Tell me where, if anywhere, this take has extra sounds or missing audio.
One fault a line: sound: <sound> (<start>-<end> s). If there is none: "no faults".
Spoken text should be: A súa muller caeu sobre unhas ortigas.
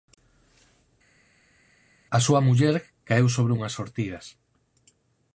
no faults